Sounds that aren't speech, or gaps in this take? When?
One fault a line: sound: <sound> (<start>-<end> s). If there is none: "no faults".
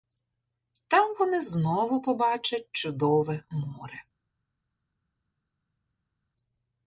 no faults